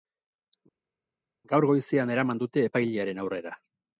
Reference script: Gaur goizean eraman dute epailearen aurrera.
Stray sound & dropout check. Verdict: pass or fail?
pass